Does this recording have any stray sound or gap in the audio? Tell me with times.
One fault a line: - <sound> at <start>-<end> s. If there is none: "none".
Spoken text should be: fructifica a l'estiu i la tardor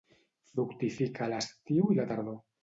none